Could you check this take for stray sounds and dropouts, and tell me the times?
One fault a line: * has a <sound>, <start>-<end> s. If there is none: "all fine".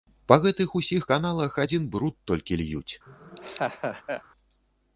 * has a laugh, 3.1-4.2 s